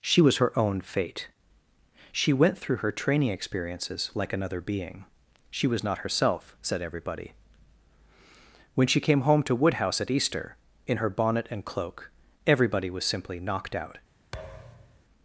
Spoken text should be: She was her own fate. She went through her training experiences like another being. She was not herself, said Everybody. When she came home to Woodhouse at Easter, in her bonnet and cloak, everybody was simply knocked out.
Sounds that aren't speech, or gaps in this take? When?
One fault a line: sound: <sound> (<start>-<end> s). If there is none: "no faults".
sound: thud (14.3-15.0 s)